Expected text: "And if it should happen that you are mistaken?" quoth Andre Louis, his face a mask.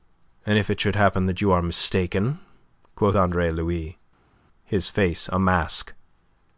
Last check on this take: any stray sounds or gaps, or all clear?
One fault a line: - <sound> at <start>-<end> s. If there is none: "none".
none